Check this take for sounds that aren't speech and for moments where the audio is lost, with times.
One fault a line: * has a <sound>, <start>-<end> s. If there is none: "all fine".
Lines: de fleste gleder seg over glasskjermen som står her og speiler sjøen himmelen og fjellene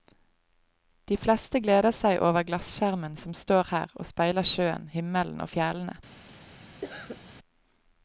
* has a cough, 6.8-7.2 s